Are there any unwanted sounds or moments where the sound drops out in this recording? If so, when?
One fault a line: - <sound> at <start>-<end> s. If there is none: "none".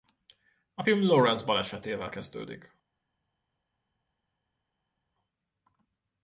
none